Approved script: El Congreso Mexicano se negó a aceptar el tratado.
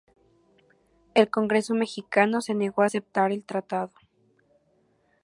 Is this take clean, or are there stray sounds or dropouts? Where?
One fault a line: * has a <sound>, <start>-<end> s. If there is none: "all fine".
all fine